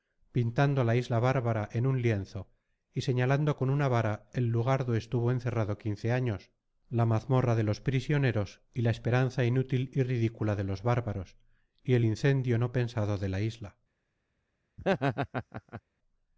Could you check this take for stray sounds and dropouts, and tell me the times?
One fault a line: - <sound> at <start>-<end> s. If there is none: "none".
- laugh at 14.8-15.8 s